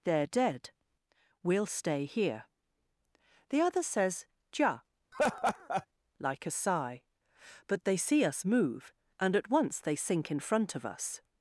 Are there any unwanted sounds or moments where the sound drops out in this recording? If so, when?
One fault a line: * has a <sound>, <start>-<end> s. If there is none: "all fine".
* has a laugh, 5.1-5.9 s